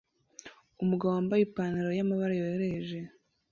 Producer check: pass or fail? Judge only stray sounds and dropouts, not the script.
pass